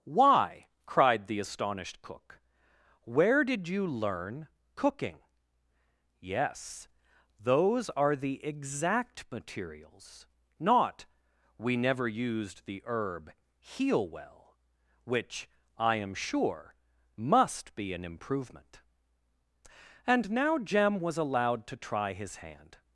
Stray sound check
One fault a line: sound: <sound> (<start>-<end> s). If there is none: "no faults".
no faults